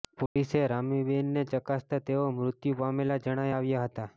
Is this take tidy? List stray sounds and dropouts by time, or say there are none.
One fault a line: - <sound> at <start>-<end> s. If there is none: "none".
- dropout at 0.3-0.4 s